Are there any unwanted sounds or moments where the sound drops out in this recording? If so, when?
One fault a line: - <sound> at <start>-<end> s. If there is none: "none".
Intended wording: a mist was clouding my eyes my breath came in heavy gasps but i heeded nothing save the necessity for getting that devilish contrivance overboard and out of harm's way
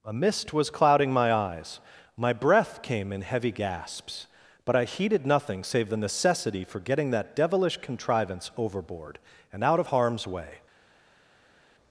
none